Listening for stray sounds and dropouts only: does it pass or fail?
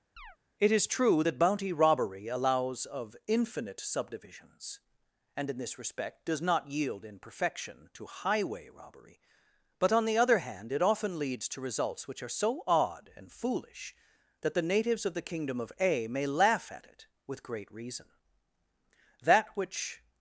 fail